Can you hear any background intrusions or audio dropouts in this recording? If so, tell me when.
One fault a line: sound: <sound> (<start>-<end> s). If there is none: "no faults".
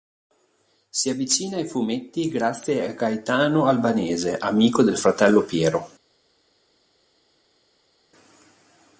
no faults